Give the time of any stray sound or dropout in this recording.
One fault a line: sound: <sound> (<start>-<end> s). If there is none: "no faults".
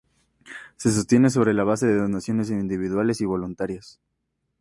no faults